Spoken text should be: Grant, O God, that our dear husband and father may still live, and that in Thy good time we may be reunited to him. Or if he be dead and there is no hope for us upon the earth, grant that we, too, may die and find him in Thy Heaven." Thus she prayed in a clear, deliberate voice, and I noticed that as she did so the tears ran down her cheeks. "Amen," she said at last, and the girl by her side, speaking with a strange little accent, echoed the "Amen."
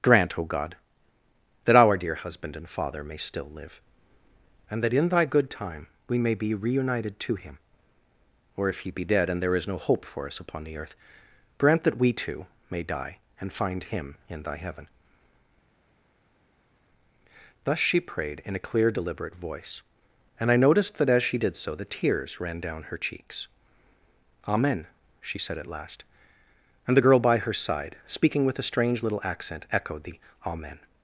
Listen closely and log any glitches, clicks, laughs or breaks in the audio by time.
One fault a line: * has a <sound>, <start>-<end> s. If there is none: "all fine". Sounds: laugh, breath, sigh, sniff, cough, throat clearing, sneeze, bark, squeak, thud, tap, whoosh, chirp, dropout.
all fine